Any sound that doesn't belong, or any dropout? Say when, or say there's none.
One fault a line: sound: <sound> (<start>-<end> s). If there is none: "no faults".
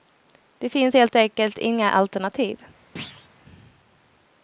sound: thud (3.0-3.3 s)